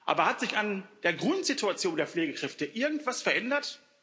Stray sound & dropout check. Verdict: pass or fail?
pass